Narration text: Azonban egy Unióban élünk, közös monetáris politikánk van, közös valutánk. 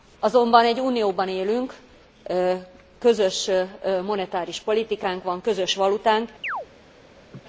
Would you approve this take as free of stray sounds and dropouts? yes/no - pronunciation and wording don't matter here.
no